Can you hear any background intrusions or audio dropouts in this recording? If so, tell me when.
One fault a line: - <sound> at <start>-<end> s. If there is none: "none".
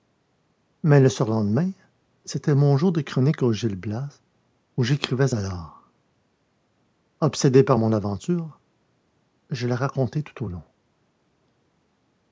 none